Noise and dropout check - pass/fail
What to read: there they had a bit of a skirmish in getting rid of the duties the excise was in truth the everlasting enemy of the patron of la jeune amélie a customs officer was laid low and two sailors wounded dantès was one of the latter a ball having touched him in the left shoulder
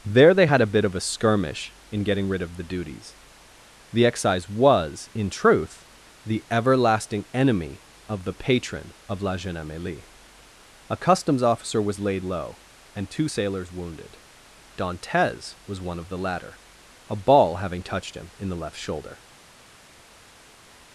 pass